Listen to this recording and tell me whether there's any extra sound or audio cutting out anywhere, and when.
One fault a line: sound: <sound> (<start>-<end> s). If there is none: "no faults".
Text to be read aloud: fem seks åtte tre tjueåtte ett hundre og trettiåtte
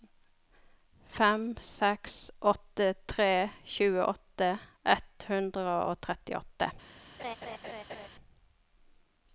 sound: laugh (7.2-8.1 s)